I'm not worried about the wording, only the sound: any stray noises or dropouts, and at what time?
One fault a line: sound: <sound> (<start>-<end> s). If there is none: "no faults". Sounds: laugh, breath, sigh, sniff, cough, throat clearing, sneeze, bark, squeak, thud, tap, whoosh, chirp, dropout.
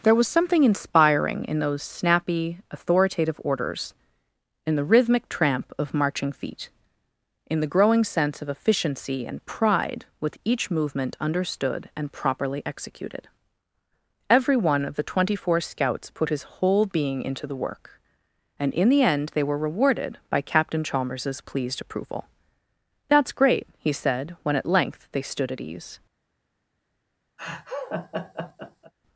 sound: laugh (27.4-28.9 s)